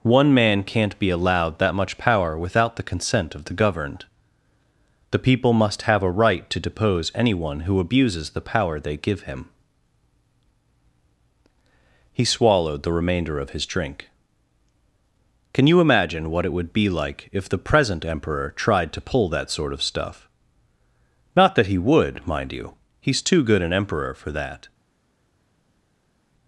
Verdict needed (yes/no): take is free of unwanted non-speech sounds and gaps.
yes